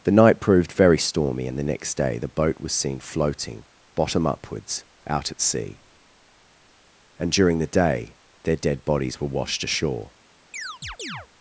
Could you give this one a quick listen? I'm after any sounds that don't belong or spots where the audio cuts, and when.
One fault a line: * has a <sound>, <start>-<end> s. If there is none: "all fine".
* has a chirp, 10.5-11.3 s